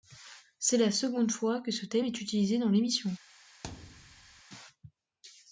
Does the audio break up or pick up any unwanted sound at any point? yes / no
yes